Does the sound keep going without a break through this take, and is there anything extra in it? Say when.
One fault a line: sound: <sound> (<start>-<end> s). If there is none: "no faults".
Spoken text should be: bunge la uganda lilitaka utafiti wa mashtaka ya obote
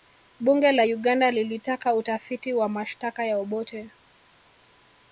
no faults